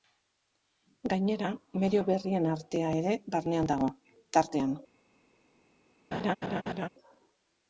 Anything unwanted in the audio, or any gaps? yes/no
yes